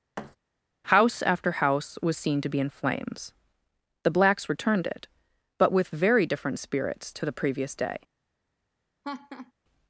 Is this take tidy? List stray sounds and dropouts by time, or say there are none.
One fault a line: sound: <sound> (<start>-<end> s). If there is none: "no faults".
sound: thud (0.2-0.4 s)
sound: laugh (9.0-9.5 s)